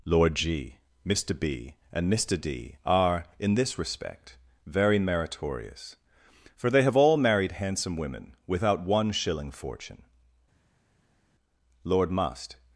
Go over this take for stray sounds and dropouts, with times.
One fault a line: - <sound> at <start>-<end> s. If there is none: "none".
none